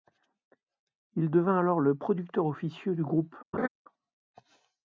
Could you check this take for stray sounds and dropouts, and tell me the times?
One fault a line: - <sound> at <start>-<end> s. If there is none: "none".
- laugh at 3.5-3.7 s